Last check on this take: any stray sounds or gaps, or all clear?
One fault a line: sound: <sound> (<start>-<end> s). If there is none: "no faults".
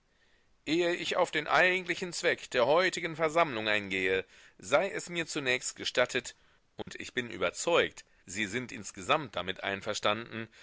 sound: dropout (6.8-6.9 s)